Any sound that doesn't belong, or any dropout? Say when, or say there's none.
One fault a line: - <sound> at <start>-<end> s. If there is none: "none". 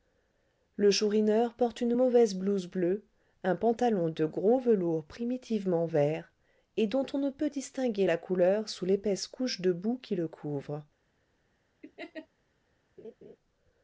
- laugh at 11.8-12.3 s
- laugh at 13.0-13.4 s